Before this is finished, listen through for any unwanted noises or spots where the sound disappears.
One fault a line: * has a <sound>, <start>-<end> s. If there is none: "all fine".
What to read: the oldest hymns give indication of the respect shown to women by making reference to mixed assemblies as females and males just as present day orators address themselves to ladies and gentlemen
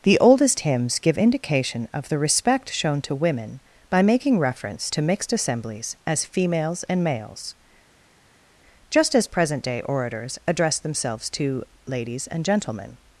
all fine